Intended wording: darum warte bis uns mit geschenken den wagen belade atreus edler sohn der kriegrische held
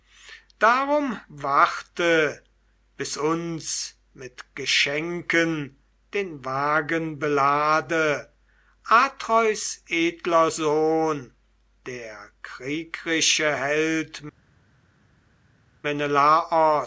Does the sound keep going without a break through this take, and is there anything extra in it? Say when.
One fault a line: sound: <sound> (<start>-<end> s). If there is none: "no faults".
no faults